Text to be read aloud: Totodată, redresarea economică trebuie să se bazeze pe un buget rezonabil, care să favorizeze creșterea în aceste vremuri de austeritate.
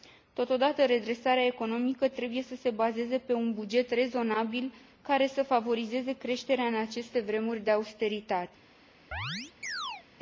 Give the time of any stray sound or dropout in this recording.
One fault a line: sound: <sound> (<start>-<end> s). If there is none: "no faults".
sound: chirp (9.1-10.0 s)